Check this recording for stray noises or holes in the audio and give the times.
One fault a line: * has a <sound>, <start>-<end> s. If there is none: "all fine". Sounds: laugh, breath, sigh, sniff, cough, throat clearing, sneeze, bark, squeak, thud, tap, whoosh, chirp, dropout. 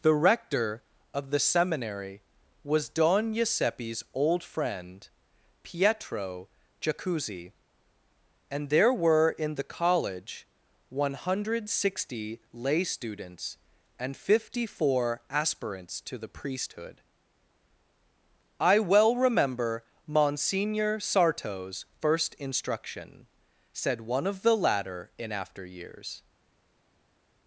all fine